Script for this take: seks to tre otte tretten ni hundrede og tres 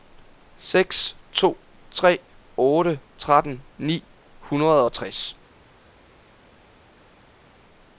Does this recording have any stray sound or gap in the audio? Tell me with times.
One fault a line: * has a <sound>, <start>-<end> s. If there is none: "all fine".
all fine